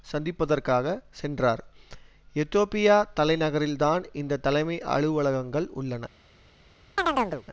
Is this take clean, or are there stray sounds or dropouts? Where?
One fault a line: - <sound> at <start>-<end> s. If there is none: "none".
- chirp at 7.0-7.4 s